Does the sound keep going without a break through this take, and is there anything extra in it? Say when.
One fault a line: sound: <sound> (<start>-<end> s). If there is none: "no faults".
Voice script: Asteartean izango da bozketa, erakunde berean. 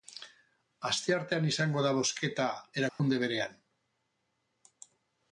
sound: dropout (2.9-3.0 s)